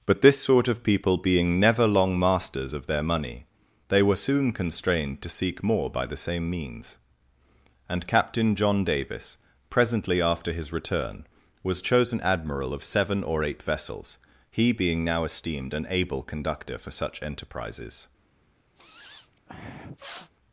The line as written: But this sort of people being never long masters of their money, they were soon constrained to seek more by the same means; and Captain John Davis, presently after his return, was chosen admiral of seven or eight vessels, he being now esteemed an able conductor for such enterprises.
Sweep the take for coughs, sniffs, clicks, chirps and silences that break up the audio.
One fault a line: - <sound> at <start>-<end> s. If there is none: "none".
- sniff at 18.8-20.3 s